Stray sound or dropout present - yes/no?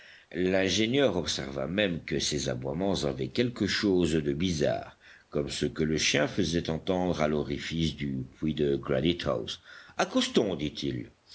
no